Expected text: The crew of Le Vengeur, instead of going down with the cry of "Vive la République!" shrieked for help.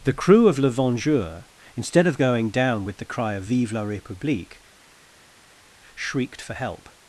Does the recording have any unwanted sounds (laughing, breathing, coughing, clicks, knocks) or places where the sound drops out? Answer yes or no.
no